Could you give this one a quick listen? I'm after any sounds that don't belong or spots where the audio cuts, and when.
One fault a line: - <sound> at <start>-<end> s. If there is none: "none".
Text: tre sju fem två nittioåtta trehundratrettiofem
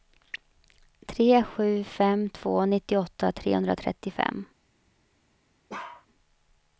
- bark at 5.7-6.1 s